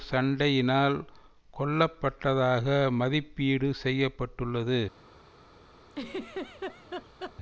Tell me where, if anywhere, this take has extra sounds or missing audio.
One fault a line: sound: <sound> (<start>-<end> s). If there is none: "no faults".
sound: laugh (5.9-7.4 s)